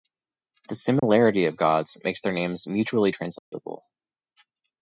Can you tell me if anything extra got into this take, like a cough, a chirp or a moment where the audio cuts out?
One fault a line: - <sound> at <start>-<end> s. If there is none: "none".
- dropout at 1.0-1.0 s
- dropout at 3.4-3.5 s